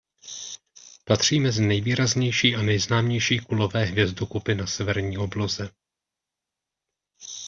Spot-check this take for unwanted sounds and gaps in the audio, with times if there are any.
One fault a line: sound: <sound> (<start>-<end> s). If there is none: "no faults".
no faults